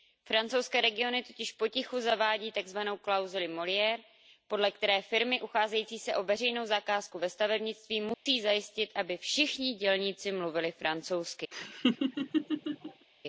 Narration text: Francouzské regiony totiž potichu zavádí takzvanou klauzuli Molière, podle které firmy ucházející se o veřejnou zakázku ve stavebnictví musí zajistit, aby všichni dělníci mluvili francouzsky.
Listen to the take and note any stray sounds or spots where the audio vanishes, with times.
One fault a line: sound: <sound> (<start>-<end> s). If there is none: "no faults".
sound: dropout (8.1-8.3 s)
sound: laugh (11.5-13.1 s)